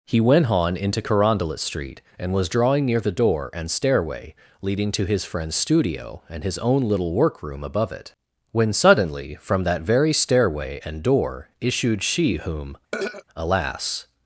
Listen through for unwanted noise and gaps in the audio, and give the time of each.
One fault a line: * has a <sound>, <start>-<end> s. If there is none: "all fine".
* has a throat clearing, 12.9-13.2 s